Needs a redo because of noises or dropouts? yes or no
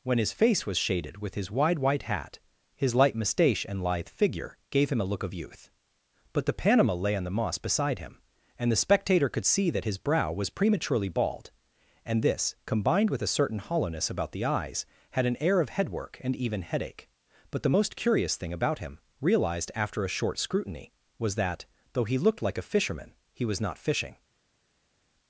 no